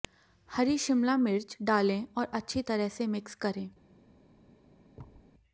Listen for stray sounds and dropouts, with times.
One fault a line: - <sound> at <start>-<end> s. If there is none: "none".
- thud at 5.0-5.3 s